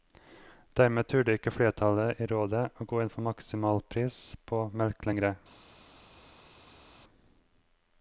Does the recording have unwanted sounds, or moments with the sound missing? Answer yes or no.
no